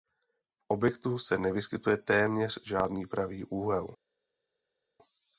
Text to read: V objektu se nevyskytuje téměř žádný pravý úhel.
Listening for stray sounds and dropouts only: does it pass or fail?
pass